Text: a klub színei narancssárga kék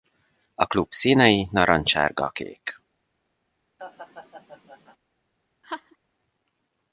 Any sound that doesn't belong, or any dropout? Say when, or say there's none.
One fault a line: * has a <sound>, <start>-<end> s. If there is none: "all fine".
* has a laugh, 3.8-5.0 s
* has a laugh, 5.6-6.0 s